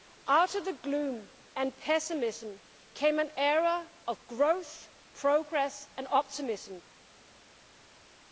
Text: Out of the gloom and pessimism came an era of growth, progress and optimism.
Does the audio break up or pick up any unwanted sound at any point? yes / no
no